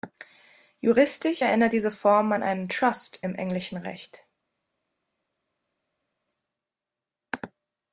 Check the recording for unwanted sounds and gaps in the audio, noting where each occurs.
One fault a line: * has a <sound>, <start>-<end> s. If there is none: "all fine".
all fine